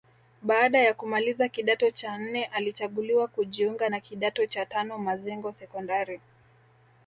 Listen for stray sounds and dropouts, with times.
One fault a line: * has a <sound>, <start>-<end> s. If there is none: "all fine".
all fine